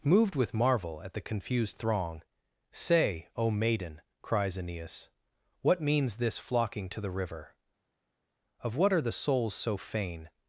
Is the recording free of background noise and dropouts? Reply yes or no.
yes